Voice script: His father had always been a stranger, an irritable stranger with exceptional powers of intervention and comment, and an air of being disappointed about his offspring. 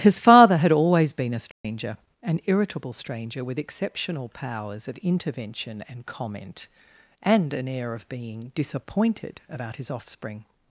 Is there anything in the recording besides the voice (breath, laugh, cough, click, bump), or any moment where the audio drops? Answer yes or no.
yes